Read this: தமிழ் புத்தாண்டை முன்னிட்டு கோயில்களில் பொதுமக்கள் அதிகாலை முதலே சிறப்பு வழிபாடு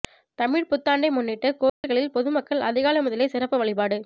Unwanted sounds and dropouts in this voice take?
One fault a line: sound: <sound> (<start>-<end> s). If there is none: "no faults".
sound: dropout (1.7-1.8 s)